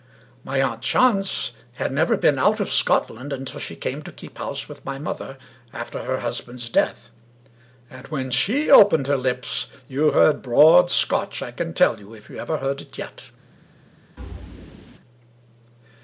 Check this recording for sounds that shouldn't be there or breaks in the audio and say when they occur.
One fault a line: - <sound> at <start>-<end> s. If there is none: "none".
- thud at 14.2-15.0 s